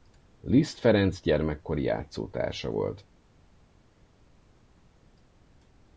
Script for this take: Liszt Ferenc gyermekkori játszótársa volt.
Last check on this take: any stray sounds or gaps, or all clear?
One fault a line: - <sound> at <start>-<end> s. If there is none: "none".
none